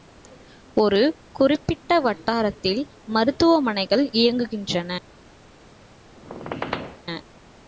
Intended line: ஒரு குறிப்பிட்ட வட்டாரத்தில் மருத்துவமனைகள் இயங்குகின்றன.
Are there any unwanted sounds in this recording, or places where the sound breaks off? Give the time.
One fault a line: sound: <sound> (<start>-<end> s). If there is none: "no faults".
sound: squeak (6.2-7.0 s)